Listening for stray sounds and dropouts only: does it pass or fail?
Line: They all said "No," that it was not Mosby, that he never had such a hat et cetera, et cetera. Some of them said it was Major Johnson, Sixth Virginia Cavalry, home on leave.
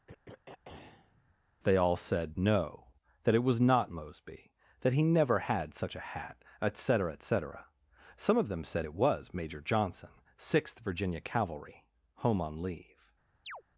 fail